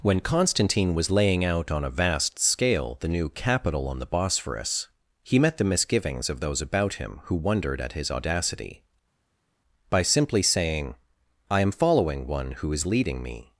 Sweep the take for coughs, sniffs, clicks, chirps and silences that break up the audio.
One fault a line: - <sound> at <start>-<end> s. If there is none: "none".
none